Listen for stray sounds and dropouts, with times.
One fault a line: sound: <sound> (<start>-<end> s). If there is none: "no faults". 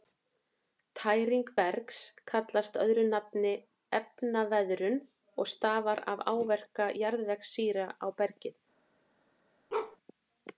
sound: bark (9.7-10.0 s)